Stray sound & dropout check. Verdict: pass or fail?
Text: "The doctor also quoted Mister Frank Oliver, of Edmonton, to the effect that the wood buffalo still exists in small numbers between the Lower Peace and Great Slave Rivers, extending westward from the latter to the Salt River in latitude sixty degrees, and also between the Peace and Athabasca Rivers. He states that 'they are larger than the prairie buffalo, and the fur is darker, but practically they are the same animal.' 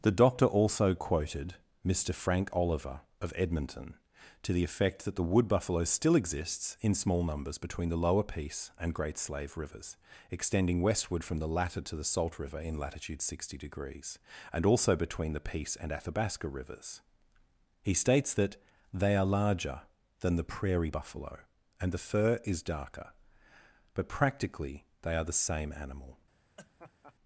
fail